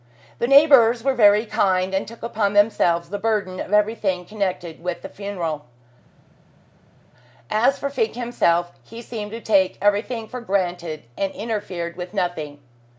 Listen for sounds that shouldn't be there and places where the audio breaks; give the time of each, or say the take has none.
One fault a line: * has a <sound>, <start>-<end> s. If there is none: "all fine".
all fine